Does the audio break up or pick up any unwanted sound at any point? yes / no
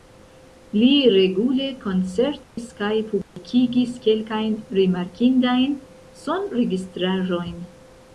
yes